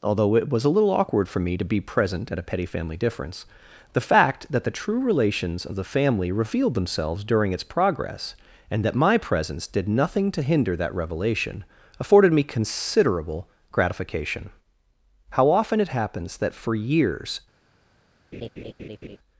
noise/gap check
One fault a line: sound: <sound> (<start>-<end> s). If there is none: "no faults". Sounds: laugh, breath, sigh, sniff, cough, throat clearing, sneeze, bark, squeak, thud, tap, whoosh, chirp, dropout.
sound: laugh (18.3-19.2 s)